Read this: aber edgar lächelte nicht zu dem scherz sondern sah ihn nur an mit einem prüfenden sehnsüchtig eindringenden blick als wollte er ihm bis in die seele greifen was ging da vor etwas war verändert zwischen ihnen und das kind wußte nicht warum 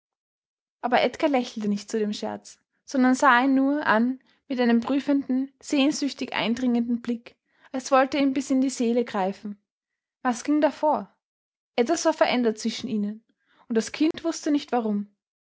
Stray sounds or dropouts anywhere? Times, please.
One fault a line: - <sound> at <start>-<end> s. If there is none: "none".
- dropout at 14.1-14.1 s